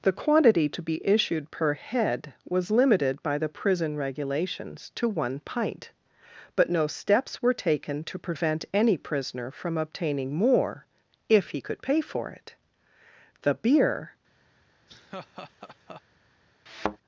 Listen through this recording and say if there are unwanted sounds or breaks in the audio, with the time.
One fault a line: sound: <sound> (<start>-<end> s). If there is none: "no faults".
sound: laugh (14.9-16.0 s)
sound: thud (16.7-17.0 s)